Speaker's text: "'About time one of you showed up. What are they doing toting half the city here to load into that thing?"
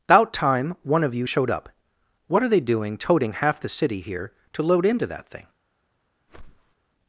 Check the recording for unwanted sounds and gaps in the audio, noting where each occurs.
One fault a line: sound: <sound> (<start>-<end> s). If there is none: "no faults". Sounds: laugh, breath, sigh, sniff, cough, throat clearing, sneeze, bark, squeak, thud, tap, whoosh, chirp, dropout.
sound: whoosh (6.3-6.7 s)